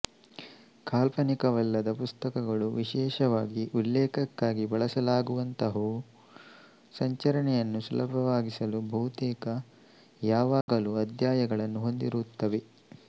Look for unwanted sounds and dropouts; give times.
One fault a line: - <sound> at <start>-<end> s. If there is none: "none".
- dropout at 10.6-10.7 s